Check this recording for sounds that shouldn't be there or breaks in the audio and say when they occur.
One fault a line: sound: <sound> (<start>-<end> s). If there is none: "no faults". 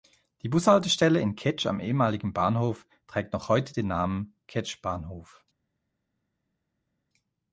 no faults